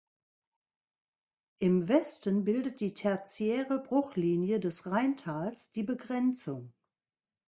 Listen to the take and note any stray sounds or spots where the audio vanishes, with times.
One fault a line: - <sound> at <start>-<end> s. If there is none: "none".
none